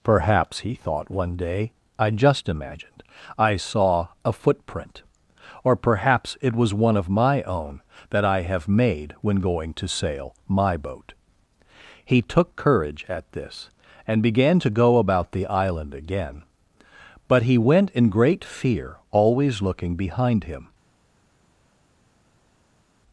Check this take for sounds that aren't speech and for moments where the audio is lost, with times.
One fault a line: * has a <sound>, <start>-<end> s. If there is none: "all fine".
all fine